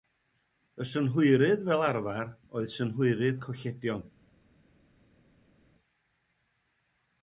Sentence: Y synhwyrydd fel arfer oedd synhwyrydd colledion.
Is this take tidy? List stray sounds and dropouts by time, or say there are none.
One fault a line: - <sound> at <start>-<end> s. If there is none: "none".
none